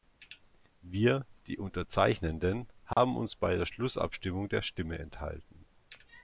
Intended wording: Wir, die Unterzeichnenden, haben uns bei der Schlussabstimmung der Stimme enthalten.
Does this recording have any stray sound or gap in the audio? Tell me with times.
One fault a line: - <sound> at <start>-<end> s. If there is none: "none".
- dropout at 2.9-3.0 s